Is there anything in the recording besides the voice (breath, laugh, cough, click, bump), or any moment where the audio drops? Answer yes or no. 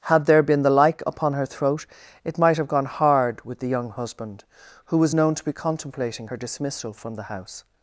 no